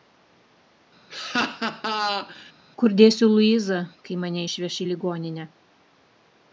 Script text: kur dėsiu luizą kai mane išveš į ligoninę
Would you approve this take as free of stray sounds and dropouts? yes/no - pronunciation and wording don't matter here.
no